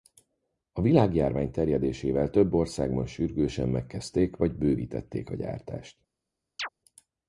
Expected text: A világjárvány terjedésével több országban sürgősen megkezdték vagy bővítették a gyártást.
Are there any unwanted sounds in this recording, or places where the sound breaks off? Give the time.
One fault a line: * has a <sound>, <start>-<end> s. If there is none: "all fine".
* has a chirp, 6.6-6.7 s